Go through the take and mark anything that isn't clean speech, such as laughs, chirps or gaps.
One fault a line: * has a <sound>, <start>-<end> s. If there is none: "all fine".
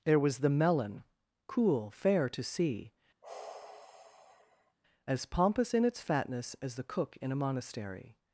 * has a sigh, 3.2-4.8 s